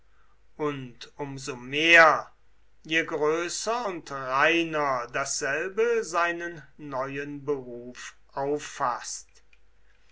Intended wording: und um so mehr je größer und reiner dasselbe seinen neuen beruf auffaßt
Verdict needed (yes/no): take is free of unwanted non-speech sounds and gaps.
yes